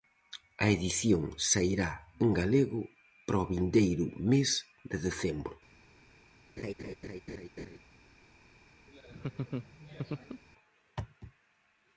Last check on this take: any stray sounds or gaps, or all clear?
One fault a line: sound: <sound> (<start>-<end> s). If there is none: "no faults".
sound: laugh (6.6-7.8 s)
sound: laugh (8.9-10.4 s)